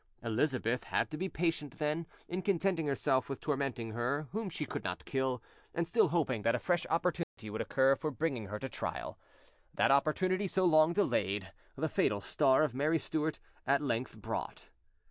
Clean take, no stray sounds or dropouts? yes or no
no